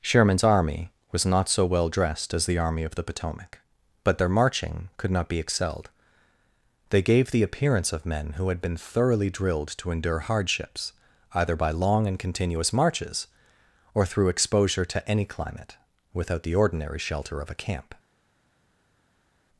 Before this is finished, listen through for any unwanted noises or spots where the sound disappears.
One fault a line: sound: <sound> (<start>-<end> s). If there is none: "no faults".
no faults